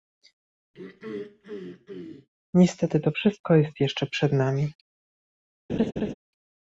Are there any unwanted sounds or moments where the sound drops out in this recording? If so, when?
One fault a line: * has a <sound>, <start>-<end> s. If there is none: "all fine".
* has a throat clearing, 0.7-2.3 s
* has a laugh, 5.7-6.1 s